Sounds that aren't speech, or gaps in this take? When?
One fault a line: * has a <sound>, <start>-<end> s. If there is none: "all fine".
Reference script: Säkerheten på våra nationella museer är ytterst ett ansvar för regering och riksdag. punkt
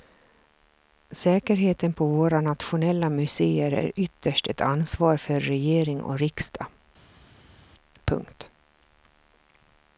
all fine